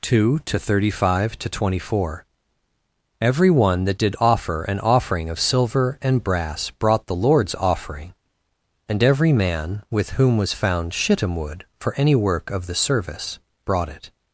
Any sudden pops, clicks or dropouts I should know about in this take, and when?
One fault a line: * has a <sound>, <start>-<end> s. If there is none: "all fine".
all fine